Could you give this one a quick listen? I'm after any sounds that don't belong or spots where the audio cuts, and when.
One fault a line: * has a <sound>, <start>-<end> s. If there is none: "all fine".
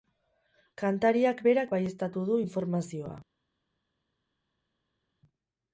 all fine